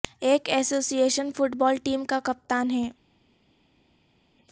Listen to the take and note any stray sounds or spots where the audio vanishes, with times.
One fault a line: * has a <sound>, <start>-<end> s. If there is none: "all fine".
all fine